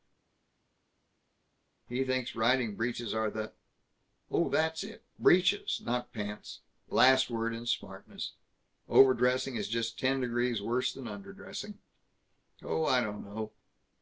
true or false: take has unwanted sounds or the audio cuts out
false